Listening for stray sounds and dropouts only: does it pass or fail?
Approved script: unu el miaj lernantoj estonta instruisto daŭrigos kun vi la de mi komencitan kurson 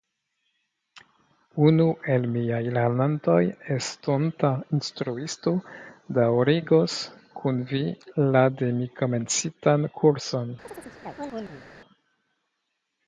fail